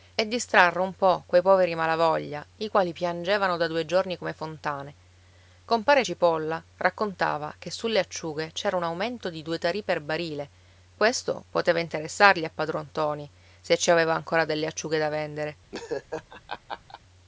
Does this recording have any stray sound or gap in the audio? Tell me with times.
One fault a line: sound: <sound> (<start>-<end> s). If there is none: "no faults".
sound: laugh (15.7-17.0 s)